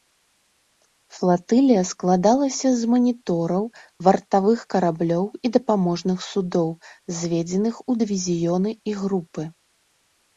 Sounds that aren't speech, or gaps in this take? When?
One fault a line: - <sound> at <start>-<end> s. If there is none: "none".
none